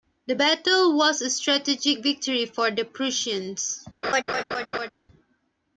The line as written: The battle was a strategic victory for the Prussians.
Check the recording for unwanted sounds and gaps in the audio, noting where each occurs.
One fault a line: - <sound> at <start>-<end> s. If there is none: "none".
- laugh at 4.0-4.9 s